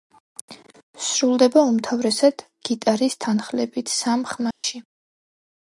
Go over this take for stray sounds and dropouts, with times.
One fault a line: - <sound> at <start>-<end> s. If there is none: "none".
- dropout at 4.5-4.6 s